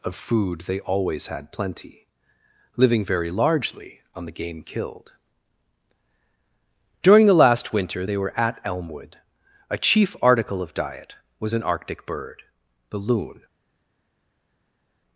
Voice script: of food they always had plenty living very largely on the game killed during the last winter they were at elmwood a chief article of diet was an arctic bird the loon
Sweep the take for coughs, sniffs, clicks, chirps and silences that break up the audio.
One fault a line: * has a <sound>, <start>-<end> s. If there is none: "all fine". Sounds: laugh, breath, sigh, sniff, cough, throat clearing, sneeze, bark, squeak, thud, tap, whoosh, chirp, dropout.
all fine